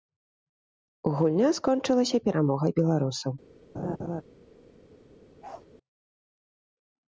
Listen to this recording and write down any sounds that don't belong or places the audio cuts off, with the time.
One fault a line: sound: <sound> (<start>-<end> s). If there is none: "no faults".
sound: laugh (3.7-4.2 s)
sound: bark (5.4-5.7 s)